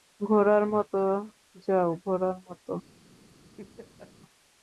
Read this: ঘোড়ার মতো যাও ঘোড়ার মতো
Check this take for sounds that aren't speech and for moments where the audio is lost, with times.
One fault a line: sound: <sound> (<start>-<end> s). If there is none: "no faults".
sound: laugh (3.6-4.1 s)